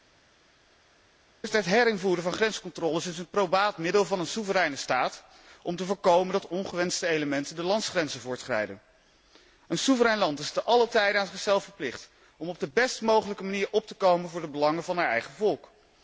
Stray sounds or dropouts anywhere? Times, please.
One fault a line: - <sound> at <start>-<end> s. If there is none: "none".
none